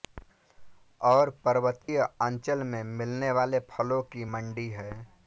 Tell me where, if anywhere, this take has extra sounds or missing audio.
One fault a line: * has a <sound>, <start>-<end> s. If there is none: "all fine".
* has a dropout, 1.8-1.9 s